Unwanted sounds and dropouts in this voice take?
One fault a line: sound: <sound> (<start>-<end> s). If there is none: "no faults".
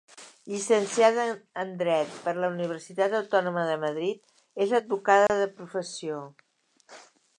sound: dropout (5.3-5.3 s)